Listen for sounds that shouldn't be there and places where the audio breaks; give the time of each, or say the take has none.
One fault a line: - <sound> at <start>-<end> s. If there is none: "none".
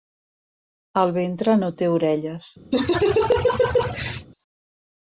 - laugh at 2.7-4.3 s